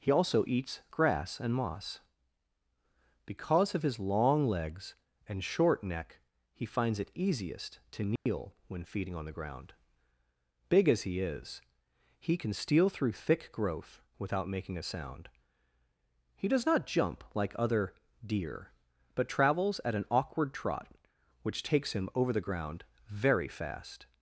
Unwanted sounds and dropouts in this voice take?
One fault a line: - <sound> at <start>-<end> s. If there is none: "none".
- dropout at 8.2-8.3 s